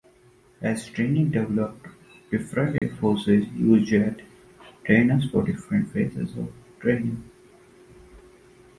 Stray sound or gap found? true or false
true